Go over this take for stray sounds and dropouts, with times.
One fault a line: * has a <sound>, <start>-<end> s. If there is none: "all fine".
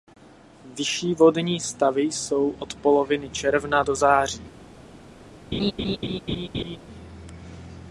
* has a laugh, 5.5-6.8 s